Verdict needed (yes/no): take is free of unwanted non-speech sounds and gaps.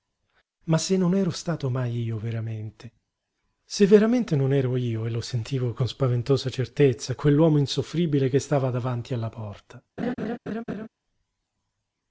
no